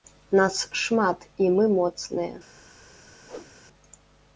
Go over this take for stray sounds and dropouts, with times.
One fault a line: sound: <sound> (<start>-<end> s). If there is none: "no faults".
sound: whoosh (3.3-3.5 s)